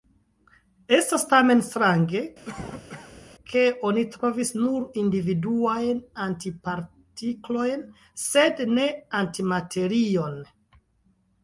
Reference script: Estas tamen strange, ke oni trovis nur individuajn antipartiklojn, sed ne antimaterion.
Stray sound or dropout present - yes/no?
yes